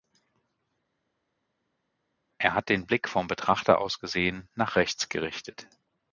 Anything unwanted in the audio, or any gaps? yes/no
no